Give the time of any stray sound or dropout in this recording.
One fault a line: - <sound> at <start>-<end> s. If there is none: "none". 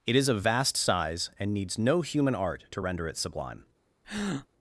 - breath at 4.0-4.5 s